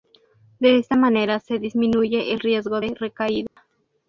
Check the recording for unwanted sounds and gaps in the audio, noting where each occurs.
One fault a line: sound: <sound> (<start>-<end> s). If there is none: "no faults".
sound: dropout (3.5-3.6 s)